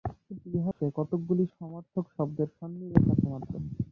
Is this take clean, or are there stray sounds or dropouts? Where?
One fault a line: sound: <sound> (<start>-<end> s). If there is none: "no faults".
sound: dropout (0.7-0.8 s)